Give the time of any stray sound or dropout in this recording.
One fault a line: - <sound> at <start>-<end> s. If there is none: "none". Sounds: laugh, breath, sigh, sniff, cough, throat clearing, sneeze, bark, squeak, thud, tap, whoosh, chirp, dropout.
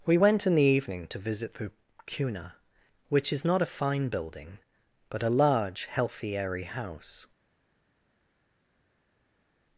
none